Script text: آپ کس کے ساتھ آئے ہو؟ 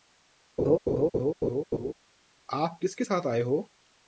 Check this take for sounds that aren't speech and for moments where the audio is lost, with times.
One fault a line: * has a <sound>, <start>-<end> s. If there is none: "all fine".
* has a laugh, 0.6-1.9 s